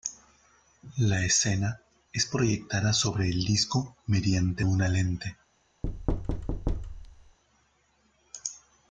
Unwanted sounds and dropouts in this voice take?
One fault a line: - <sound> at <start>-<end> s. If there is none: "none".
- thud at 5.8-7.4 s